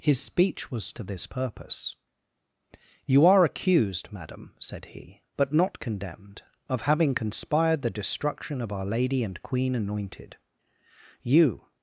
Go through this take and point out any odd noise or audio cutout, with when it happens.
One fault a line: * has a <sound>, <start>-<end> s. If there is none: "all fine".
all fine